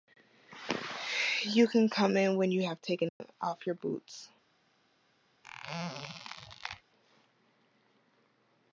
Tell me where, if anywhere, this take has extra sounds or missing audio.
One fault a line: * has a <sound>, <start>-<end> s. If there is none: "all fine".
* has a dropout, 3.1-3.2 s
* has a squeak, 5.4-6.8 s